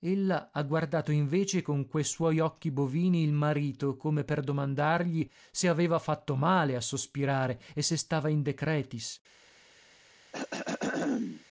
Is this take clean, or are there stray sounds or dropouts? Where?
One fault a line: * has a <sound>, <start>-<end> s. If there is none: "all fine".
* has a throat clearing, 10.3-11.4 s